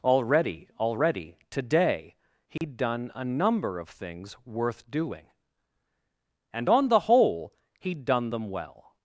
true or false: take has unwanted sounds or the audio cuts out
true